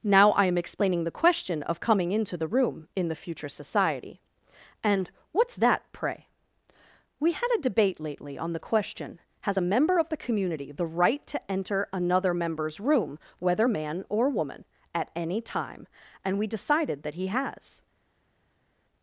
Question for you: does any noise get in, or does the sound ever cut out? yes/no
no